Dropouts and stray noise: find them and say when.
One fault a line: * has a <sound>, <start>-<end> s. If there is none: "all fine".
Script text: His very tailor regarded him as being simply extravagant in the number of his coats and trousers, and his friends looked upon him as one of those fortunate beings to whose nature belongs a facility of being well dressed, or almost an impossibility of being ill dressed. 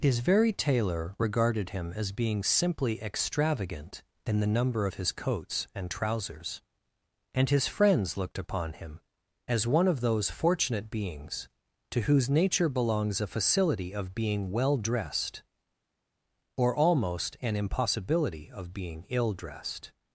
all fine